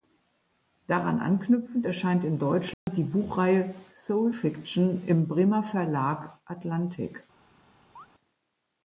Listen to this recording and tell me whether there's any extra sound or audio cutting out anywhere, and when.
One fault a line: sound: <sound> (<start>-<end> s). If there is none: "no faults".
sound: dropout (2.7-2.9 s)
sound: chirp (8.0-8.1 s)